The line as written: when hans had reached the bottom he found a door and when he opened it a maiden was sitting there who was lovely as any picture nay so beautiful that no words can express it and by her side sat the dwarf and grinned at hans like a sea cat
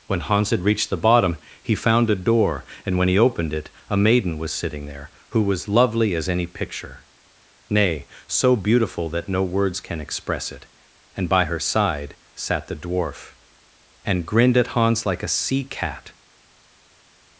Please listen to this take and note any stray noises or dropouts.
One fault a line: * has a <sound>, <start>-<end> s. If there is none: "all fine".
all fine